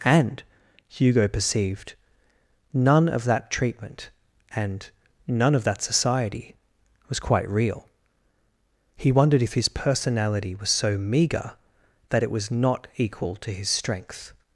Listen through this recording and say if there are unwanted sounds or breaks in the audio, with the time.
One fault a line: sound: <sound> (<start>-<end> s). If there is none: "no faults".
no faults